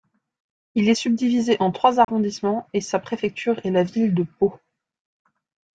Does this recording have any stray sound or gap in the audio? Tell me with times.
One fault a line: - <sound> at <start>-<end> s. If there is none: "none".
- dropout at 2.0-2.1 s